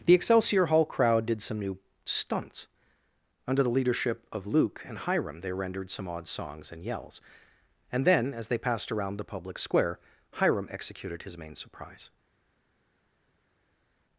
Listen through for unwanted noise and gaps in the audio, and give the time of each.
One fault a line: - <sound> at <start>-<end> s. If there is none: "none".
none